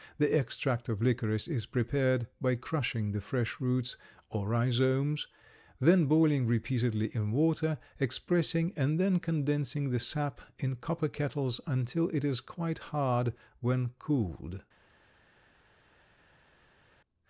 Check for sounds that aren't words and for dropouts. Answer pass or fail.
pass